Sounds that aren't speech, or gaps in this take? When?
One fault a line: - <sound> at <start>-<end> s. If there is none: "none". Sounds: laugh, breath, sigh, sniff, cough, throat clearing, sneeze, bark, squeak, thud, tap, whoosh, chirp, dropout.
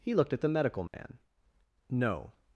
- dropout at 0.9-0.9 s